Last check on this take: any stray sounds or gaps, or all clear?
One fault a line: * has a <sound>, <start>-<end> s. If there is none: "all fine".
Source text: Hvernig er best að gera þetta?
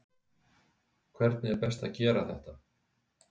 all fine